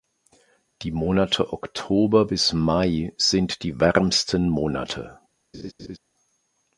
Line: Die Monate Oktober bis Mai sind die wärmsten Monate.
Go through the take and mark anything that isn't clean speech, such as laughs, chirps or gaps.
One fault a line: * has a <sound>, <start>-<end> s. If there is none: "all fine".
* has a laugh, 5.5-6.0 s